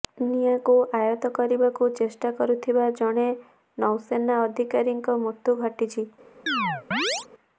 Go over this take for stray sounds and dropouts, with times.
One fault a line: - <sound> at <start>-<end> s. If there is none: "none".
- chirp at 6.5-7.3 s